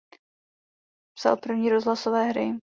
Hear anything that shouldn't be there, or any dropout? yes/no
no